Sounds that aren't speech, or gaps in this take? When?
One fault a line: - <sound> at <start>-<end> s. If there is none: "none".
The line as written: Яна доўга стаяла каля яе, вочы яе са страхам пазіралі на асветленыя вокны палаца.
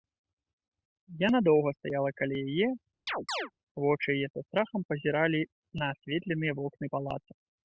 - chirp at 3.1-3.5 s